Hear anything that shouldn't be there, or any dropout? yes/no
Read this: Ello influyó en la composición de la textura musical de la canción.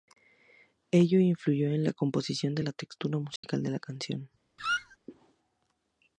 yes